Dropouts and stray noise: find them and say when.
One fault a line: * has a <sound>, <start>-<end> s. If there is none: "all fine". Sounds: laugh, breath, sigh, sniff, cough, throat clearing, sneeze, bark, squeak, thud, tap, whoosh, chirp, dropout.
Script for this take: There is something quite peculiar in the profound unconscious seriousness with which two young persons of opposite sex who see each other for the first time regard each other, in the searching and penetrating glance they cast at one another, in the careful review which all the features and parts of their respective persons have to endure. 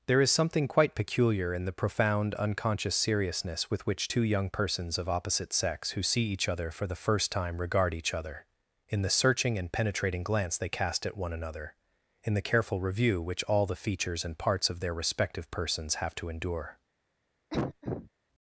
* has a cough, 17.5-18.1 s